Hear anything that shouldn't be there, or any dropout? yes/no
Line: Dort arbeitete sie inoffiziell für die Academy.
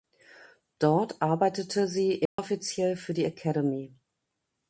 yes